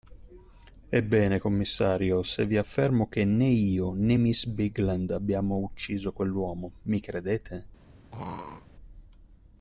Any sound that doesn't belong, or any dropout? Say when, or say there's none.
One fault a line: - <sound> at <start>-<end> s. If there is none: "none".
- throat clearing at 8.1-8.7 s